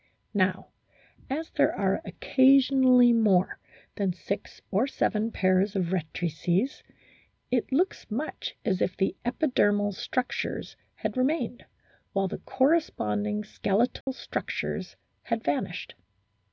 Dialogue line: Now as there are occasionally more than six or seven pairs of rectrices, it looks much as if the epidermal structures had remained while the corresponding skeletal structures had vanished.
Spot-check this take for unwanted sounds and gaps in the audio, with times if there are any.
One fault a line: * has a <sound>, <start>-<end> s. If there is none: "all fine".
* has a dropout, 14.0-14.1 s